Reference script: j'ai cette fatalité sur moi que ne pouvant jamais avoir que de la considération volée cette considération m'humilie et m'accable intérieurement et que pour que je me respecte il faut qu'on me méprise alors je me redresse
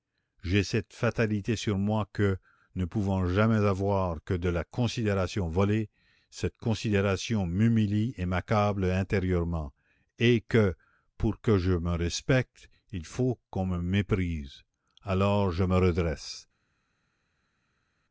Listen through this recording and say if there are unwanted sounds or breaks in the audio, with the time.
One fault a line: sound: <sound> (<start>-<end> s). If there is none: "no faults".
no faults